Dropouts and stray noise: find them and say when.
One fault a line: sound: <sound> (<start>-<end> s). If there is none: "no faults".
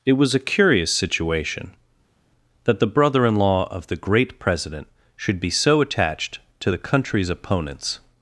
no faults